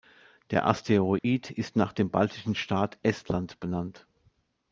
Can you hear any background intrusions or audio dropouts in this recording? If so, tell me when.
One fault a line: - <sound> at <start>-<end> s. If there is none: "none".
- dropout at 1.2-1.2 s